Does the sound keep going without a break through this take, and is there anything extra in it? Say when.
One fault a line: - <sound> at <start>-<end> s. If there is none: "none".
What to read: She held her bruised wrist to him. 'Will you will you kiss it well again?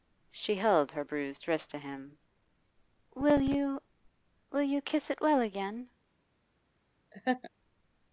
- laugh at 7.1-7.5 s